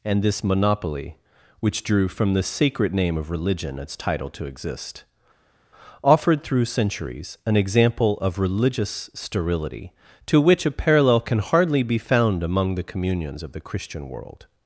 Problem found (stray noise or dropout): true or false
false